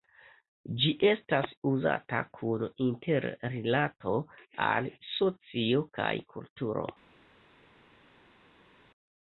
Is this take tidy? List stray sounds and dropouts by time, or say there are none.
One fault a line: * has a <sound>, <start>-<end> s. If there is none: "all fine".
all fine